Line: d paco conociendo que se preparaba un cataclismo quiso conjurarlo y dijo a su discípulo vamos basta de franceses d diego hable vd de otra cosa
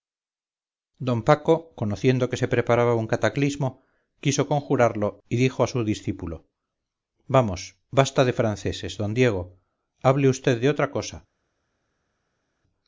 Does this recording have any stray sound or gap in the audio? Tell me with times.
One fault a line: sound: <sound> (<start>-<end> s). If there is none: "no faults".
no faults